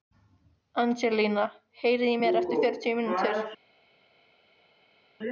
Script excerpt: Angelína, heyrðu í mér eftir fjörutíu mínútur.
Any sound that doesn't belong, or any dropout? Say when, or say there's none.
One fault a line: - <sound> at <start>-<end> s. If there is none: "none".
none